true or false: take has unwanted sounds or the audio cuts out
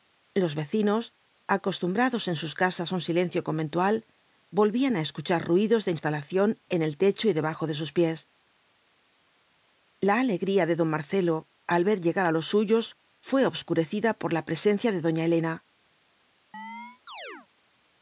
true